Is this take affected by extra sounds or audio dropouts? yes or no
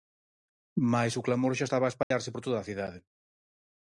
yes